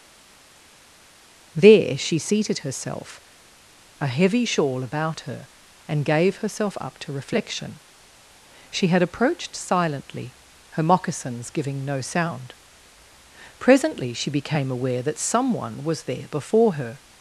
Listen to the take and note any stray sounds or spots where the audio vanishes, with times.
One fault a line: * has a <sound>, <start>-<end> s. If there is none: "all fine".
all fine